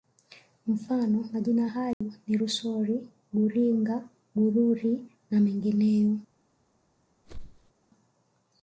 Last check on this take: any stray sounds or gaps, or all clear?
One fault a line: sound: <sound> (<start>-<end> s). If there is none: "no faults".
sound: dropout (1.9-2.0 s)
sound: whoosh (7.2-7.7 s)